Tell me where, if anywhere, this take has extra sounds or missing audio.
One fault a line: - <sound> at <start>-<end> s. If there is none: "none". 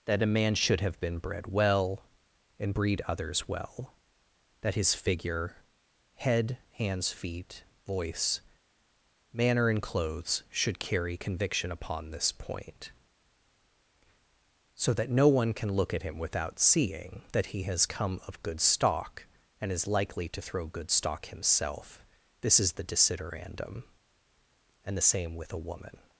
none